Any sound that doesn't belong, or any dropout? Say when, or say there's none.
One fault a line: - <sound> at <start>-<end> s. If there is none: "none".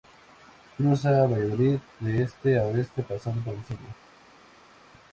none